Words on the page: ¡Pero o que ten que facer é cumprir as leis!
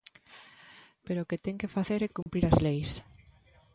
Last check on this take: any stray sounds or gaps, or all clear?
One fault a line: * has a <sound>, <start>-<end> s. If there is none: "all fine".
* has a dropout, 2.2-2.3 s